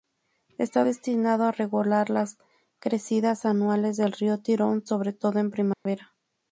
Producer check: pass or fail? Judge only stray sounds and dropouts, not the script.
fail